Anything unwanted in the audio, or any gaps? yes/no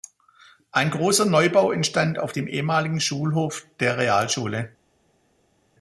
no